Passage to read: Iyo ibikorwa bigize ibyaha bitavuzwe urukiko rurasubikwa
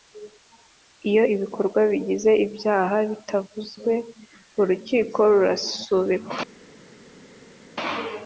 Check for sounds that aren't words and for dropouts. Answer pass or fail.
pass